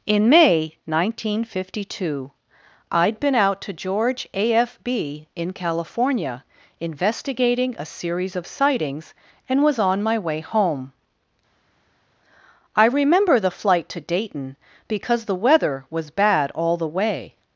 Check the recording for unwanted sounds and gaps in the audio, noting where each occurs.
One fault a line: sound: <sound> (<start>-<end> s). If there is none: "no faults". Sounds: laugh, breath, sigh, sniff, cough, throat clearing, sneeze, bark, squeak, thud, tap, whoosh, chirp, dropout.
no faults